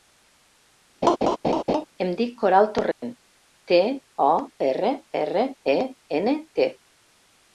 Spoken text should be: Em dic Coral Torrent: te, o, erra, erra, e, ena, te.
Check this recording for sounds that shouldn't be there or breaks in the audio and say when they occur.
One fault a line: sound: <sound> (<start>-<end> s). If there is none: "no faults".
sound: laugh (1.0-1.9 s)
sound: dropout (2.9-3.0 s)